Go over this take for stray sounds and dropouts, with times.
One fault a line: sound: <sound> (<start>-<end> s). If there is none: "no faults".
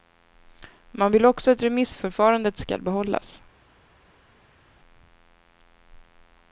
no faults